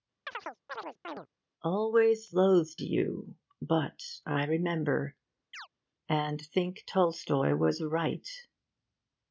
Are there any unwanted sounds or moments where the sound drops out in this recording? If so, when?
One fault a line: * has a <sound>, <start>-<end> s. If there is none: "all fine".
* has a chirp, 0.3-1.3 s
* has a chirp, 5.5-5.7 s